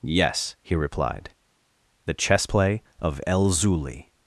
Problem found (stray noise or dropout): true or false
false